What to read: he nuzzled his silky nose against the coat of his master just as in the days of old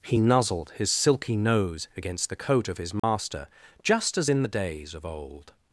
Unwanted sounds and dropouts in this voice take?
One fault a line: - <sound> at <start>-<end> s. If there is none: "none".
- dropout at 3.0-3.0 s